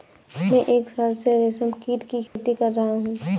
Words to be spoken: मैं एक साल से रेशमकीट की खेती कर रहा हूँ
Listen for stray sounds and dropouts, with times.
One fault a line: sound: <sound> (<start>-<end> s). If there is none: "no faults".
sound: dropout (2.3-2.4 s)